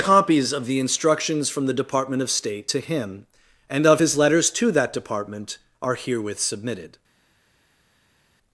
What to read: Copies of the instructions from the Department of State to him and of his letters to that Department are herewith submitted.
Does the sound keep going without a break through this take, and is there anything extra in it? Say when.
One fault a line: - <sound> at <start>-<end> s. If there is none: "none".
none